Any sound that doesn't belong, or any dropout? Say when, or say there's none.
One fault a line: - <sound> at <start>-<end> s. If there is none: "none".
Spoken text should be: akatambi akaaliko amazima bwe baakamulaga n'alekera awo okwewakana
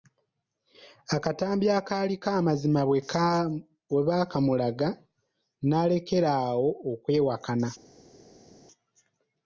none